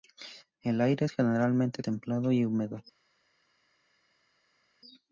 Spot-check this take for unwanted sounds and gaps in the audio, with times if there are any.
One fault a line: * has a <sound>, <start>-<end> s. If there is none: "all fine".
all fine